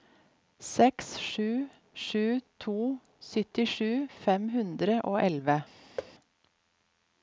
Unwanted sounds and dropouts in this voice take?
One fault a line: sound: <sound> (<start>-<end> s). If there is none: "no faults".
sound: thud (6.0-6.1 s)